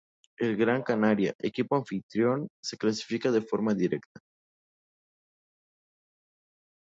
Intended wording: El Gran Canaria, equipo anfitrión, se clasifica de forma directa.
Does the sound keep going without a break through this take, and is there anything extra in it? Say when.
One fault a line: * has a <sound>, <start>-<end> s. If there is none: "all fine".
all fine